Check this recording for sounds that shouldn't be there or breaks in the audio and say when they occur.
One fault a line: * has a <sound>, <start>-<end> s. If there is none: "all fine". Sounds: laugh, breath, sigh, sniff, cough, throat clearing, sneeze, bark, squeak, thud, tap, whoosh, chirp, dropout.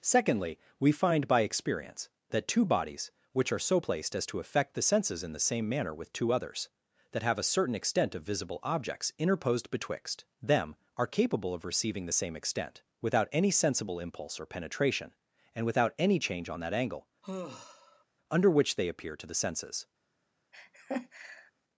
* has a sigh, 17.2-18.0 s
* has a laugh, 20.5-21.5 s